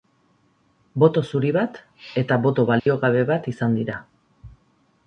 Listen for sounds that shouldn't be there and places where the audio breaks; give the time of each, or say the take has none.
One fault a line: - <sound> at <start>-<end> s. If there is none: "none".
- dropout at 2.8-2.9 s